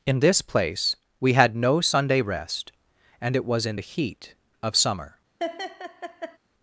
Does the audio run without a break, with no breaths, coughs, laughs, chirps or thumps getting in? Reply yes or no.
no